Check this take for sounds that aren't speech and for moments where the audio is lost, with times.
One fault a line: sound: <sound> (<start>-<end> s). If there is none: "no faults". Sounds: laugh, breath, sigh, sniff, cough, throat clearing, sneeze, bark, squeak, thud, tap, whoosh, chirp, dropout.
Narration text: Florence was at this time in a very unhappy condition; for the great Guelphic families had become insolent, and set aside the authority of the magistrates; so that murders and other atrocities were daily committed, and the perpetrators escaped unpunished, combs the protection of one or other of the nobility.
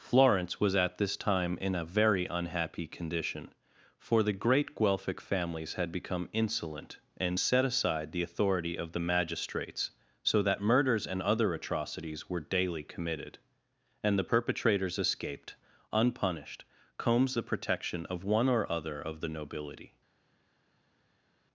no faults